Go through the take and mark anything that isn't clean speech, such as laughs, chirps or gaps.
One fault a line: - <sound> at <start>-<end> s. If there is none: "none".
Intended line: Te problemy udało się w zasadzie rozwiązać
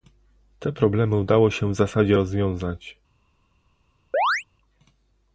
- chirp at 4.1-4.4 s